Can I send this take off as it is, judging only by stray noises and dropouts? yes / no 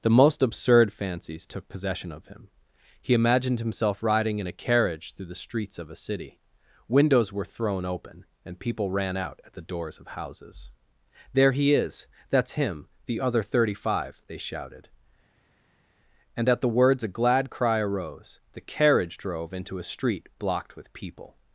yes